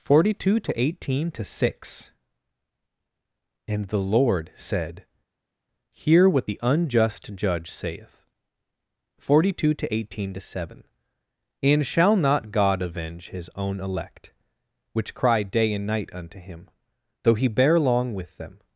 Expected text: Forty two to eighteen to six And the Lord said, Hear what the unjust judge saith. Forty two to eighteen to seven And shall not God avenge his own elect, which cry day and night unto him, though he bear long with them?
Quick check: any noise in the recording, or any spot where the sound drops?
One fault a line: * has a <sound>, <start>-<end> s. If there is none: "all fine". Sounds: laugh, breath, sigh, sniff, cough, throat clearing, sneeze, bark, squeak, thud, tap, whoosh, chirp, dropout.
all fine